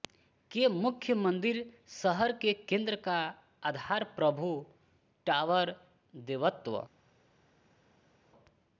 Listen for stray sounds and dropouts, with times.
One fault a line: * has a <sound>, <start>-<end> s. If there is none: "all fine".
all fine